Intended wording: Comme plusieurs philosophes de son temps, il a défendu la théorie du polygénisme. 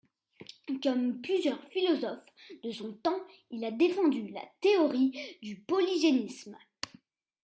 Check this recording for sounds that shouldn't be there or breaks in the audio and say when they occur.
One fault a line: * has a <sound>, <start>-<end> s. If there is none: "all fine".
all fine